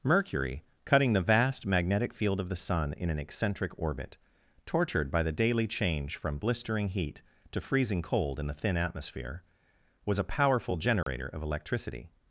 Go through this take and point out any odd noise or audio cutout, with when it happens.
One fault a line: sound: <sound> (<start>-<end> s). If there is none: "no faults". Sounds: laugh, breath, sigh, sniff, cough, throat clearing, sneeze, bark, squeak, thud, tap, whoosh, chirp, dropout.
sound: dropout (11.0-11.1 s)